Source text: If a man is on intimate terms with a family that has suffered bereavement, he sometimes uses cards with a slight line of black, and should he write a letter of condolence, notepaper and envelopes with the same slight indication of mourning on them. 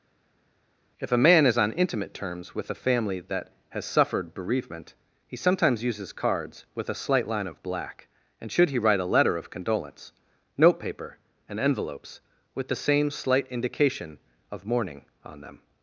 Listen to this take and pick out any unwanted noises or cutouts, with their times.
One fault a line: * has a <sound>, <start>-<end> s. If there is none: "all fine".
all fine